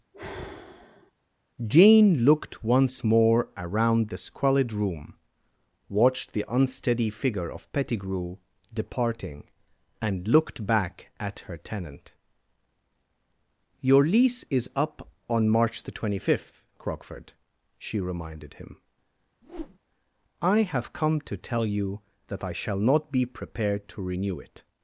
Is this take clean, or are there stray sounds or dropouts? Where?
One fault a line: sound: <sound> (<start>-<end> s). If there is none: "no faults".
sound: sigh (0.1-1.1 s)
sound: whoosh (19.4-19.8 s)